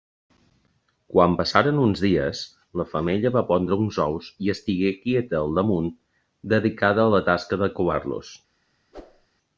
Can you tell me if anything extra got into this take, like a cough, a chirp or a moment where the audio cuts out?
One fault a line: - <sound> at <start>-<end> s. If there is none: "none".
- whoosh at 8.9-9.3 s